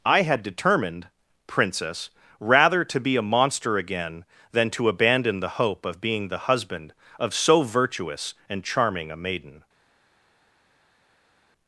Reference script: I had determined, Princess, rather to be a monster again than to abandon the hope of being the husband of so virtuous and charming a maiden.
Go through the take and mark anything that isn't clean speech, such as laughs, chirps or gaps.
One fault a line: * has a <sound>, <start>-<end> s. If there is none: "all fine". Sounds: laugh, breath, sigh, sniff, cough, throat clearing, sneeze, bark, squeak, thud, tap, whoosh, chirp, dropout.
all fine